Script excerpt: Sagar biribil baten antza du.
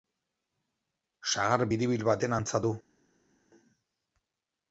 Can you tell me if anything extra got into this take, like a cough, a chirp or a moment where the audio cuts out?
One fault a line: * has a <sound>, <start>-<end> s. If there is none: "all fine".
all fine